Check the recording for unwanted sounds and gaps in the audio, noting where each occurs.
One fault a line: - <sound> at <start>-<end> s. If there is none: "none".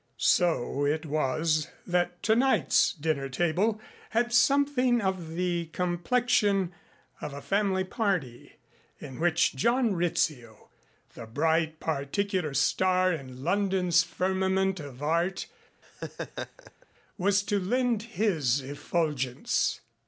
- laugh at 15.8-16.9 s